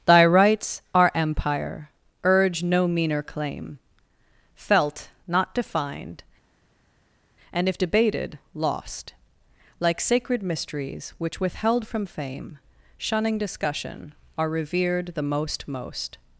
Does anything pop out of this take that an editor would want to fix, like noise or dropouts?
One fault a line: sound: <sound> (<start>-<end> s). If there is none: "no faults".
no faults